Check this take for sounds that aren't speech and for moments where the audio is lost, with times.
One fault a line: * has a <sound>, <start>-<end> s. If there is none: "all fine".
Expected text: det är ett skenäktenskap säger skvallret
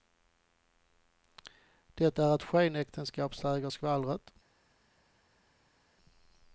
all fine